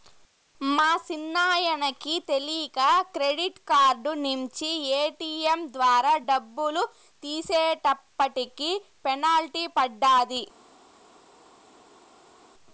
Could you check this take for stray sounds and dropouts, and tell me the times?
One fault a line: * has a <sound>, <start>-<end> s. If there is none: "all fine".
all fine